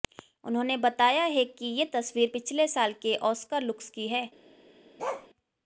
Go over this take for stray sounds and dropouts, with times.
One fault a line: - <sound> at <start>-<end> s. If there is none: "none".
- bark at 5.0-5.3 s